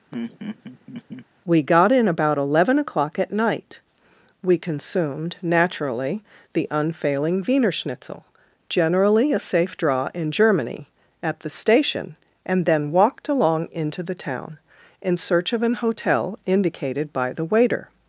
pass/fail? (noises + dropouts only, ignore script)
fail